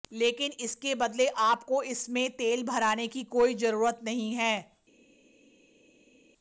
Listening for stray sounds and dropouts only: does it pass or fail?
pass